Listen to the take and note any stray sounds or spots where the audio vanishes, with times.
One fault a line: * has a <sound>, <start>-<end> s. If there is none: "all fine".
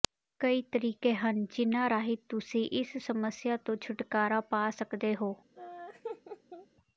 * has a laugh, 5.6-6.7 s